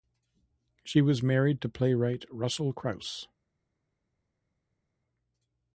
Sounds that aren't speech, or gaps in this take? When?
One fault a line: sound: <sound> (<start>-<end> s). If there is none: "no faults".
no faults